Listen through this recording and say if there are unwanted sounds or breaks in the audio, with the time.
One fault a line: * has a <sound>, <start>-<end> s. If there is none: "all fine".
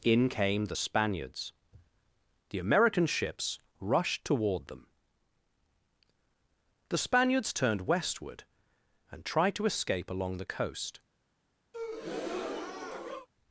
* has a breath, 11.7-13.3 s